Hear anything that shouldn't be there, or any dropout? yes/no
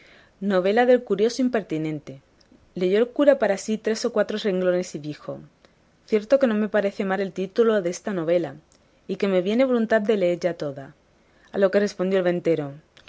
no